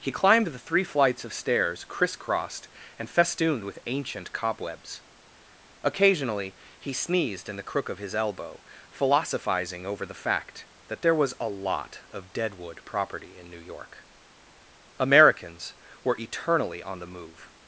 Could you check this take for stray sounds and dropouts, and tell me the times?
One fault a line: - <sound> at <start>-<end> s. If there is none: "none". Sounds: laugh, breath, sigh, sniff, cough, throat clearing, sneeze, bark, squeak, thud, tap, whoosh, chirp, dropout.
none